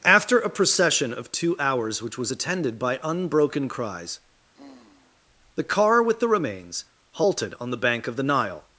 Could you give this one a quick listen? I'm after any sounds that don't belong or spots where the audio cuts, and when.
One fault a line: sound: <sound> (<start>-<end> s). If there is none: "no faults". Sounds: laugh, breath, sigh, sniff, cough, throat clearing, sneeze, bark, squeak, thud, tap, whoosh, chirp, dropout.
sound: sigh (4.5-5.2 s)